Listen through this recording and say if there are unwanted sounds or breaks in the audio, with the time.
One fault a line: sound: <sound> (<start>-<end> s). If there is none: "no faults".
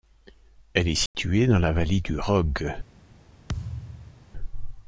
sound: dropout (1.1-1.1 s)
sound: thud (3.5-4.3 s)